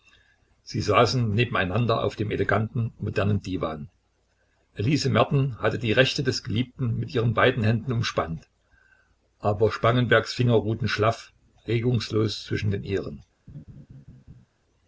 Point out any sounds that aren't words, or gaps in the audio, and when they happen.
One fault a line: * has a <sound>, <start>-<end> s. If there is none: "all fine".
* has a laugh, 13.5-14.5 s